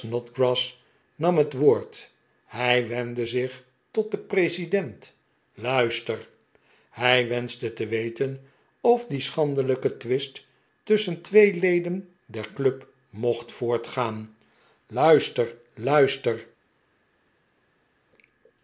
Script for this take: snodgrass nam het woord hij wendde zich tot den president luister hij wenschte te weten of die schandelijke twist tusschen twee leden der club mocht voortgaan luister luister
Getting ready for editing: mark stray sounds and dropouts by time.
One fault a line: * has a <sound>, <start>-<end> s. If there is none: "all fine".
all fine